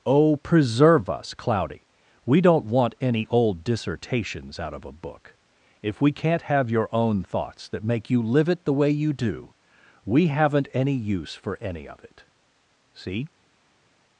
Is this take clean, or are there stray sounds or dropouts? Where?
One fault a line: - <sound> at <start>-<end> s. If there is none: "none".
none